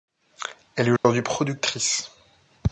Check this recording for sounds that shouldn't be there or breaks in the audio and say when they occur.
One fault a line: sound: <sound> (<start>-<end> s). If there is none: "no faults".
sound: dropout (1.0-1.0 s)